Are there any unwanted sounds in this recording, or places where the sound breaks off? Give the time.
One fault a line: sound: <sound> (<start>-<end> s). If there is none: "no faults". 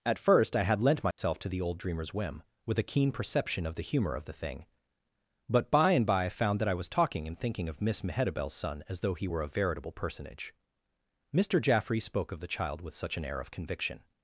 sound: dropout (1.1-1.2 s)